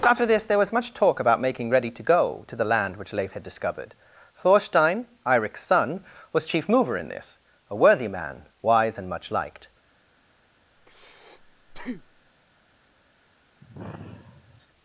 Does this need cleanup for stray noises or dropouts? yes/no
yes